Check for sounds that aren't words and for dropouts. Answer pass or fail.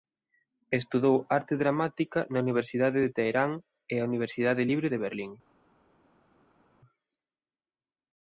pass